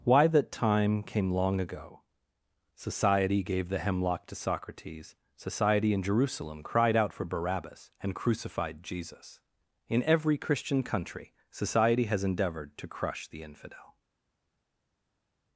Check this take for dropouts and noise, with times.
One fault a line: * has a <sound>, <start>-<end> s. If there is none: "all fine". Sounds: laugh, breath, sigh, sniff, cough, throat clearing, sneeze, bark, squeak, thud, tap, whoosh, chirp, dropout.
all fine